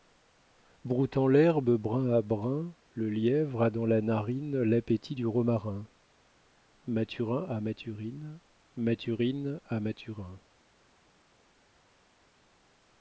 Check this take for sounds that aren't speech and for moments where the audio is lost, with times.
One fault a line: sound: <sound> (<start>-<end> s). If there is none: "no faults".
no faults